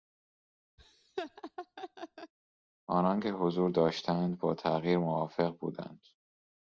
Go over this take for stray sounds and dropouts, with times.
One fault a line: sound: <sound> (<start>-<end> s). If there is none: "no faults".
sound: laugh (0.8-2.3 s)